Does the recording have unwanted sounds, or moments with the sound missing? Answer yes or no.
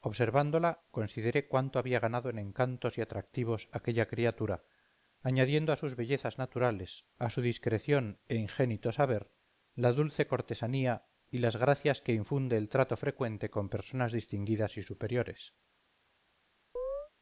yes